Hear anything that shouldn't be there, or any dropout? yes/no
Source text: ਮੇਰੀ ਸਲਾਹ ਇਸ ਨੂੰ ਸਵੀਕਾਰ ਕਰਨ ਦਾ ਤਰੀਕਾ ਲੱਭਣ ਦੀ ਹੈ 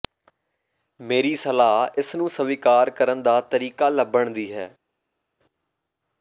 no